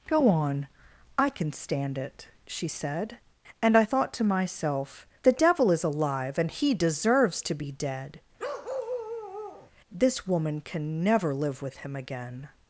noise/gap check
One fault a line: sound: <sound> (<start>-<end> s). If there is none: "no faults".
sound: bark (8.4-9.7 s)